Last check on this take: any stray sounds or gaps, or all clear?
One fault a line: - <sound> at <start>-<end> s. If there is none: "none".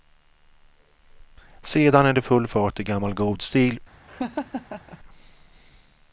- laugh at 4.1-5.0 s